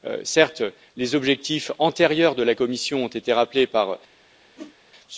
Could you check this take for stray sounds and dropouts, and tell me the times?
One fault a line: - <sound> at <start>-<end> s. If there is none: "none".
- whoosh at 4.6-4.8 s